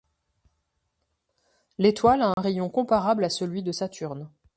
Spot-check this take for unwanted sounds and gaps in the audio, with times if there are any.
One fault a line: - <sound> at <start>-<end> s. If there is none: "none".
- dropout at 2.3-2.4 s